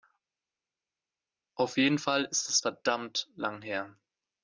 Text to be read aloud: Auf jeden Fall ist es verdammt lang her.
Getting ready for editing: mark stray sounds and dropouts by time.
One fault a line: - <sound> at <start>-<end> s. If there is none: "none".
none